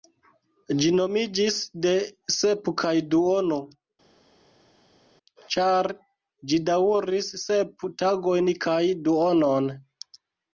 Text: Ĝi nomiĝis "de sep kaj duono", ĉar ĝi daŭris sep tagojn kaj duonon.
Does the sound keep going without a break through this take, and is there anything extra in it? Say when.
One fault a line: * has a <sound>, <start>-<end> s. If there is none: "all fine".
all fine